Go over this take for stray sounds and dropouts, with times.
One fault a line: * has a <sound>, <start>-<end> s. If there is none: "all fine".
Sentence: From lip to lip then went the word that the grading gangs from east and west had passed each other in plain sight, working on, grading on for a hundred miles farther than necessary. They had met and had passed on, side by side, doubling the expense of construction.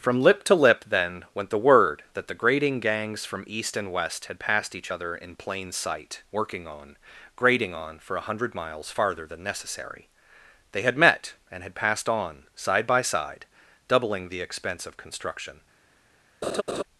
* has a laugh, 16.4-16.8 s